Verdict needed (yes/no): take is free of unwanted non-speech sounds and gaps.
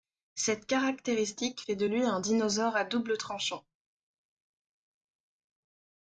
yes